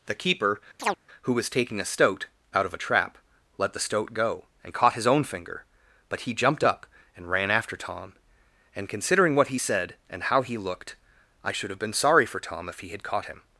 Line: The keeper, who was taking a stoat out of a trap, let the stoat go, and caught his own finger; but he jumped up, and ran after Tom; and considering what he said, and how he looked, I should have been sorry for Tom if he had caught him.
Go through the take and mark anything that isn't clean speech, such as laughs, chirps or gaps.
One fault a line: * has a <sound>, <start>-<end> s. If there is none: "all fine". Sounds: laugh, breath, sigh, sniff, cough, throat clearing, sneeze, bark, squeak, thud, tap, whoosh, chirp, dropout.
* has a chirp, 0.8-1.0 s